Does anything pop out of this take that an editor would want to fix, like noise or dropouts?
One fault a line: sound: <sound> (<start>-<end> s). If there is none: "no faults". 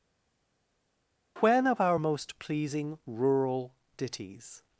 no faults